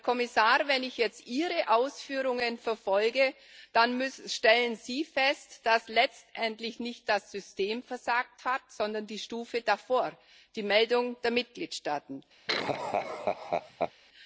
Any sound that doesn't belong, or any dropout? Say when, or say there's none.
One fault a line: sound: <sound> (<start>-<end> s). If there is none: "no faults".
sound: laugh (12.5-13.9 s)